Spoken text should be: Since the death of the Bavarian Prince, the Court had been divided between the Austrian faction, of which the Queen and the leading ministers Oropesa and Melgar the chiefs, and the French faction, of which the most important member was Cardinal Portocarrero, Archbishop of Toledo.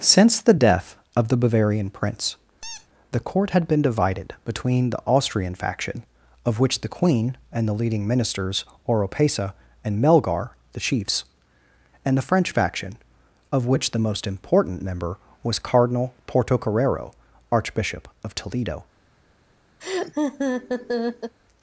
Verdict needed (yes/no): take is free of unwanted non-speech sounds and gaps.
no